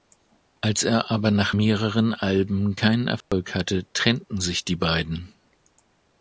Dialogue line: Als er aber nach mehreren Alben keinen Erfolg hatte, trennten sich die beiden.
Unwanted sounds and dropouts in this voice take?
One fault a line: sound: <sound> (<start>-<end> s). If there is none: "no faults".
sound: dropout (3.2-3.3 s)